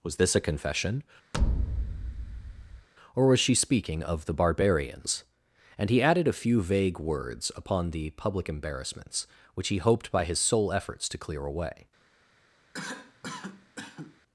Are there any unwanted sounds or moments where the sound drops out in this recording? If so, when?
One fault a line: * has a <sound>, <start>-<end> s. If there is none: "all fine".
* has a thud, 1.3-2.9 s
* has a cough, 12.7-14.2 s